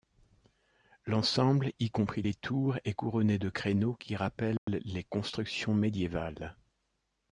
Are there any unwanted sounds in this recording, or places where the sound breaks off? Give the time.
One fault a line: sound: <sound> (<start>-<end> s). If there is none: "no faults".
sound: dropout (4.6-4.7 s)